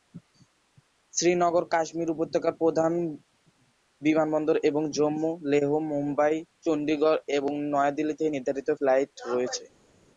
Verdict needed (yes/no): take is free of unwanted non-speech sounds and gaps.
yes